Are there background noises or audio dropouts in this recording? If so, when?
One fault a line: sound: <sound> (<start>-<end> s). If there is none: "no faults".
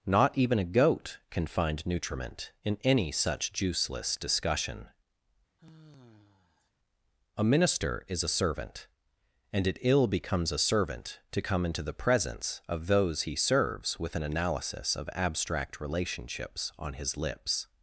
sound: sigh (5.6-6.7 s)